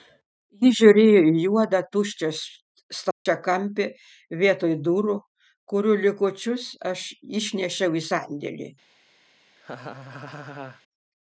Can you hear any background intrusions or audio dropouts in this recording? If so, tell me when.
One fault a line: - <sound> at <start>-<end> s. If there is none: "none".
- dropout at 3.1-3.3 s
- laugh at 9.6-10.8 s